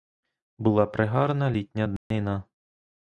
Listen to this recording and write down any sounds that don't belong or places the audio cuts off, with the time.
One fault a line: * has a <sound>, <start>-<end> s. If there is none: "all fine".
* has a dropout, 2.0-2.1 s